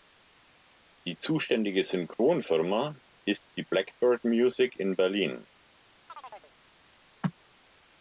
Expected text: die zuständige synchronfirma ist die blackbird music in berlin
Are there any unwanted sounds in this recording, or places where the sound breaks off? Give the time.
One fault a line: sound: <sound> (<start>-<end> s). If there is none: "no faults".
sound: chirp (6.1-6.5 s)